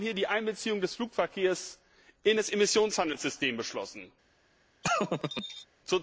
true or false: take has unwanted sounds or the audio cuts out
true